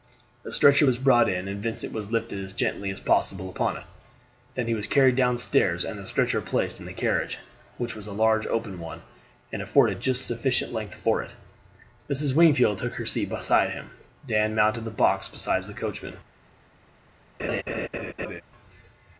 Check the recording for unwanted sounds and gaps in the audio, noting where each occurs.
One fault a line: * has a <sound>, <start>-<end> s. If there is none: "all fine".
* has a laugh, 17.4-18.4 s